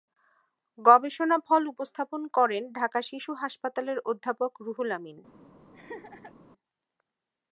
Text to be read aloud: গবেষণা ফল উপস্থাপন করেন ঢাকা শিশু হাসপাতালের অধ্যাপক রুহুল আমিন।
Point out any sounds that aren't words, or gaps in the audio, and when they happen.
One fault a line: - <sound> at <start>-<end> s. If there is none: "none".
- laugh at 5.7-6.3 s